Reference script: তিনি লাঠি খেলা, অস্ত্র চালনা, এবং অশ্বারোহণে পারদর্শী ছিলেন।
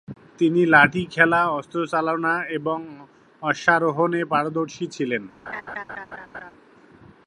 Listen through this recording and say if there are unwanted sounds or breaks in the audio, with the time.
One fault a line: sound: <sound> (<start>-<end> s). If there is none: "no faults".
sound: laugh (5.5-6.5 s)